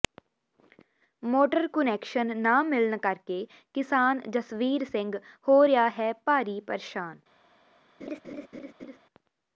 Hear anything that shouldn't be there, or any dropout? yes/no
yes